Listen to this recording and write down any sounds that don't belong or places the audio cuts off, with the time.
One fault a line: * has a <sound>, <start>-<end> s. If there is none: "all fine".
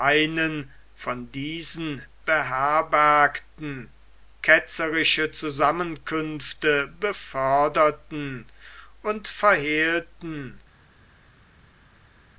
all fine